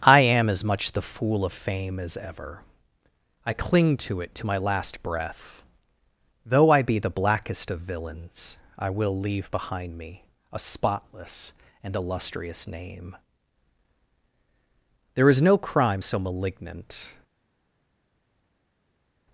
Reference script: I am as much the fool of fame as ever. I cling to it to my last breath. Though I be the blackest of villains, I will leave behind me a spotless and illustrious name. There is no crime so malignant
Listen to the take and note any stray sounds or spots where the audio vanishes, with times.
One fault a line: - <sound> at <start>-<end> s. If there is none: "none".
none